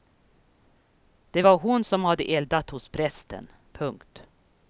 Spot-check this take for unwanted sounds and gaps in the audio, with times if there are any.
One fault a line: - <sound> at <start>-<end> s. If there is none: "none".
none